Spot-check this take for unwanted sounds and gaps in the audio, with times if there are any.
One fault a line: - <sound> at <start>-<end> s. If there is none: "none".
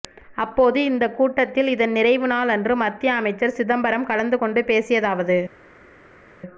none